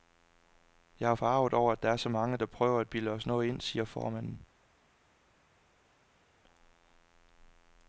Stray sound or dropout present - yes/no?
no